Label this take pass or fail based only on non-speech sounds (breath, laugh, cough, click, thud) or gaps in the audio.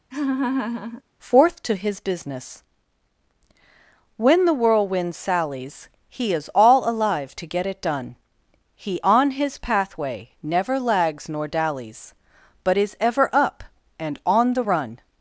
fail